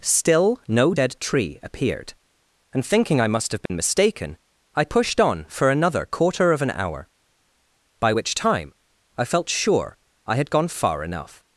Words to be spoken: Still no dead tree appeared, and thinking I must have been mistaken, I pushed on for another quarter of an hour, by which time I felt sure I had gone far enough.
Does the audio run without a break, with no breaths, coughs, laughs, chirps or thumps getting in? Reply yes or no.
no